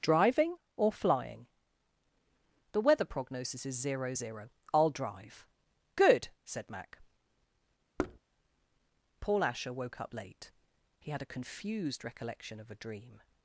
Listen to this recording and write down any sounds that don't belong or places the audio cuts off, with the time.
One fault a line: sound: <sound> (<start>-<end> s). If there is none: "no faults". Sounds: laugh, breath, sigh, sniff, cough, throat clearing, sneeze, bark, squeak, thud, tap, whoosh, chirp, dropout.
sound: thud (8.0-8.2 s)